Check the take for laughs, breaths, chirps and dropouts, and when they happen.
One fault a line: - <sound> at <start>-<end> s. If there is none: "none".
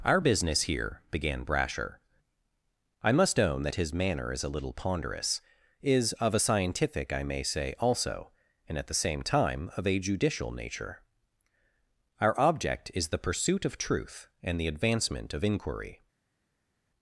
none